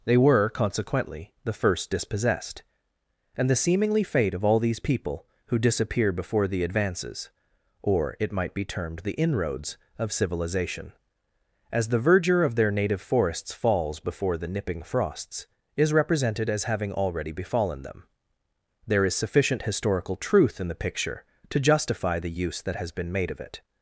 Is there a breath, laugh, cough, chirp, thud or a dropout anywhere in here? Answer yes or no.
no